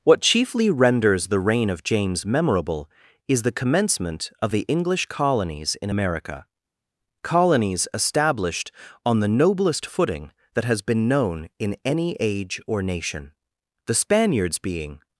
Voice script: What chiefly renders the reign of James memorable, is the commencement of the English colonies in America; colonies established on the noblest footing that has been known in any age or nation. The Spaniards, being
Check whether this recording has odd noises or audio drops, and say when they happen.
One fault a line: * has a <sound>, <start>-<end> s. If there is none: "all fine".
all fine